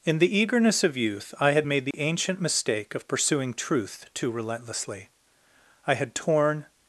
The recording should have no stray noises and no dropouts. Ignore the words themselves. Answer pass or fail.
fail